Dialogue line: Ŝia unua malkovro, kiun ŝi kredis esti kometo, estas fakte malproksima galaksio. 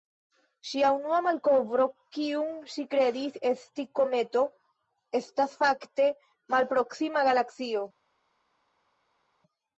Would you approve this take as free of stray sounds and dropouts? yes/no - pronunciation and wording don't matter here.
yes